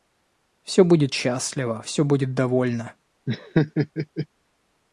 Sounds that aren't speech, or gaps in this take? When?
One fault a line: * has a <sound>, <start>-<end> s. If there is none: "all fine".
* has a laugh, 3.3-4.3 s